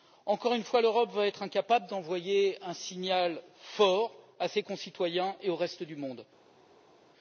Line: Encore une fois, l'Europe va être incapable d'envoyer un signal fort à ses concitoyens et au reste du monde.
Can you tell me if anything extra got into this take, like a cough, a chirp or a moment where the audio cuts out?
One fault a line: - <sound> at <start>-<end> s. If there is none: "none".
none